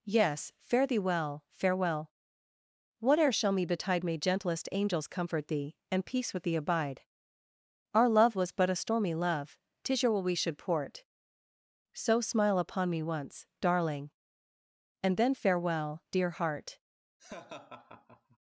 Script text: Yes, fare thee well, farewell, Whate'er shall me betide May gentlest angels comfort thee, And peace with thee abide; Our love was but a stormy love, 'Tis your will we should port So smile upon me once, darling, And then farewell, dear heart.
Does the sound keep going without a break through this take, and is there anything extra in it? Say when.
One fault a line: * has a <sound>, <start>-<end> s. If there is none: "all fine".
* has a laugh, 17.2-18.4 s